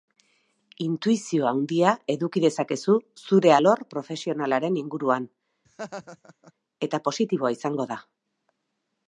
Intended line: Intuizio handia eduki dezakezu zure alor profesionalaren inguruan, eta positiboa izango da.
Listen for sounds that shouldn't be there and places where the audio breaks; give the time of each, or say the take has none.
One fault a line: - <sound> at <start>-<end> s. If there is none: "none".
- laugh at 5.6-6.5 s